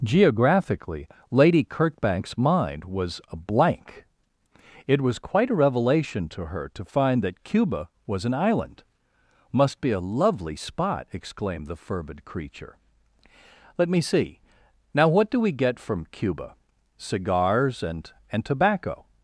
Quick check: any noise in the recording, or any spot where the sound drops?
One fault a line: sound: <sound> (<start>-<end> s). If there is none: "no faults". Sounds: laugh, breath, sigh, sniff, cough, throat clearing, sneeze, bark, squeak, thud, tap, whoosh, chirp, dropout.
no faults